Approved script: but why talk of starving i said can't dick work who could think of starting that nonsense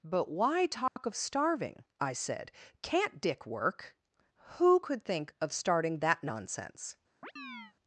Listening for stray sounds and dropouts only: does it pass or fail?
fail